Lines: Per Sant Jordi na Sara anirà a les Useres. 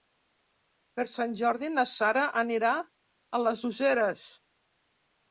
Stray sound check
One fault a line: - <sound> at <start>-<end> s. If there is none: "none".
none